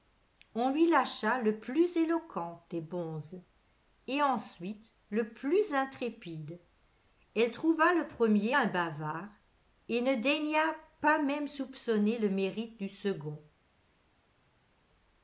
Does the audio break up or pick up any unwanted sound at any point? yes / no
no